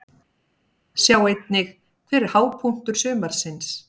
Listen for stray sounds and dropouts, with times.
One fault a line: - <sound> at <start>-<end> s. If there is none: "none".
none